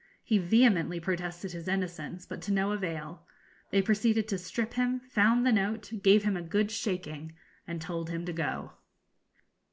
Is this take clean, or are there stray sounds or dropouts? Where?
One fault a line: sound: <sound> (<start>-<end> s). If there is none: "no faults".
no faults